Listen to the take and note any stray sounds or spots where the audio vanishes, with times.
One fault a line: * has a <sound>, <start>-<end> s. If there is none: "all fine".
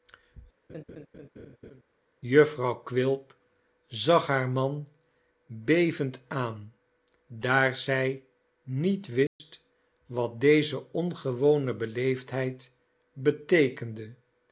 * has a laugh, 0.7-1.8 s
* has a dropout, 9.3-9.4 s